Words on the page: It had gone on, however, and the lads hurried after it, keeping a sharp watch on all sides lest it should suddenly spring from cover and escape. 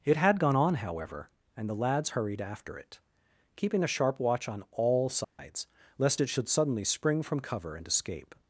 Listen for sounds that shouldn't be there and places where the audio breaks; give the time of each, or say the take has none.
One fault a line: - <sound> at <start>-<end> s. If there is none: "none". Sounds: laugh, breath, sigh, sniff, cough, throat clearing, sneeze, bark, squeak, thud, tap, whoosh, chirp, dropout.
- dropout at 5.2-5.4 s